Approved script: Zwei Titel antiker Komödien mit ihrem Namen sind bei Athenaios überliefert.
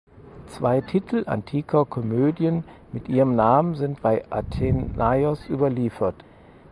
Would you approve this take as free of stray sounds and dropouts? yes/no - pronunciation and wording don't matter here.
yes